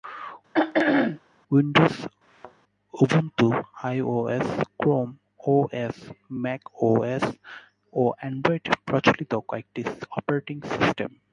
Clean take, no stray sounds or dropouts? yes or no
no